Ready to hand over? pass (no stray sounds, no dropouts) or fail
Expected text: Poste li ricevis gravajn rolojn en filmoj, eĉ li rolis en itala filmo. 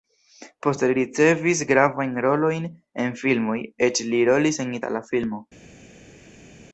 pass